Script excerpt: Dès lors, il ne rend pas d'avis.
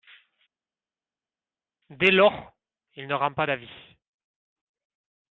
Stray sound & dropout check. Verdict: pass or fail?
pass